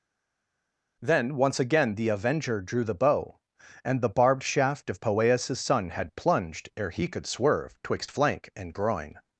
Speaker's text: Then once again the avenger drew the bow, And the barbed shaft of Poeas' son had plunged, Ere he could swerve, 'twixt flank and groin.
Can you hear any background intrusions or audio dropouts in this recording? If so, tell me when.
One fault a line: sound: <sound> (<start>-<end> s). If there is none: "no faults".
no faults